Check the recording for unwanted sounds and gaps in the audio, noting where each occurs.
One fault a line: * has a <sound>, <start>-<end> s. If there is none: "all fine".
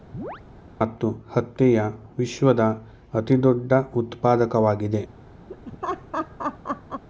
* has a chirp, 0.1-0.4 s
* has a laugh, 5.5-7.0 s